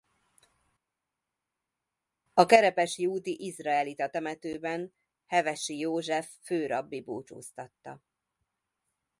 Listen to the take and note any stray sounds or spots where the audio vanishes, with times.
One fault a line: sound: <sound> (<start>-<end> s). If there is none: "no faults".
no faults